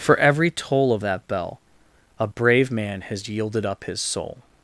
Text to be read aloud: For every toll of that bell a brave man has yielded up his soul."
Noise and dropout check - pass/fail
pass